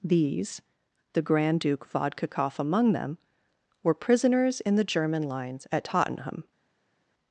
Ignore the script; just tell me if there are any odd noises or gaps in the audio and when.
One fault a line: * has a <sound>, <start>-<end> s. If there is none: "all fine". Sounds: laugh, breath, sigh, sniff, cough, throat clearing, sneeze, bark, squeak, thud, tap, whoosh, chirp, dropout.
all fine